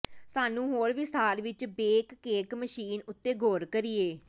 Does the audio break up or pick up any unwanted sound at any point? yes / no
no